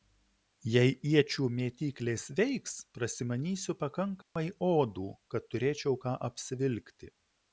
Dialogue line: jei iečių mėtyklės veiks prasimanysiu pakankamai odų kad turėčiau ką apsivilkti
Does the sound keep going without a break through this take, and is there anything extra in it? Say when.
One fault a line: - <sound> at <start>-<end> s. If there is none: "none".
- dropout at 4.2-4.4 s